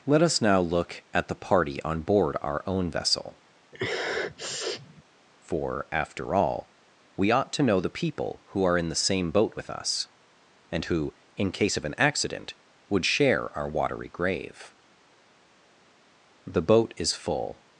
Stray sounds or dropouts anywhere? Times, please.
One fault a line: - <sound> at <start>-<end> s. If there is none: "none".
- sniff at 3.7-5.0 s